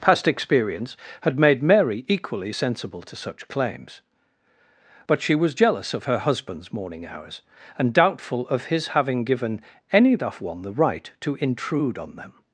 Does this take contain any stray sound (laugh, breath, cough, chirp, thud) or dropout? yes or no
no